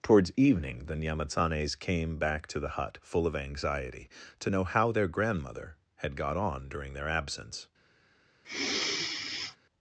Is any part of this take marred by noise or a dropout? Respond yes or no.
yes